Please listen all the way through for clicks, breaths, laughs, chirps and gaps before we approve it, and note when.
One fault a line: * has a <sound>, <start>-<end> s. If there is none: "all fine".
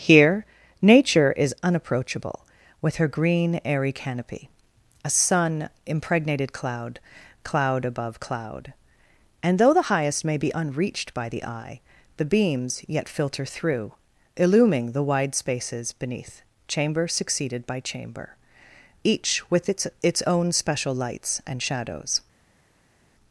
all fine